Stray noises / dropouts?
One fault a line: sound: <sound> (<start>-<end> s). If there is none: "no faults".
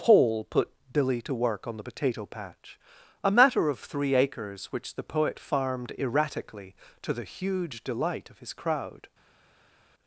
no faults